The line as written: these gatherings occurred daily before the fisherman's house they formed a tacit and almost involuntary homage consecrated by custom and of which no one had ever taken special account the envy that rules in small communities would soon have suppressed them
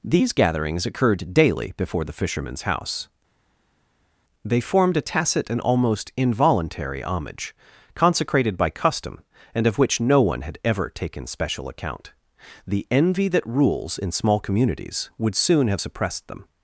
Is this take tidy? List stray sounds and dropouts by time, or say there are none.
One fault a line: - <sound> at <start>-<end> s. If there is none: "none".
none